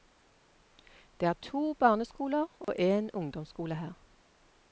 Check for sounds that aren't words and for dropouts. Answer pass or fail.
fail